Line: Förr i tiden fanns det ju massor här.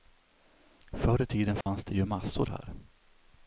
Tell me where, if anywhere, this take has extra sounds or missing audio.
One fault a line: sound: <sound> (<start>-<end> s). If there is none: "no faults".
sound: dropout (1.6-1.7 s)